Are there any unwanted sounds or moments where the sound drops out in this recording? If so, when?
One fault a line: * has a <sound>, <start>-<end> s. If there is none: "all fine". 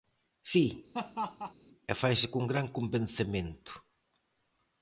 * has a laugh, 0.9-1.5 s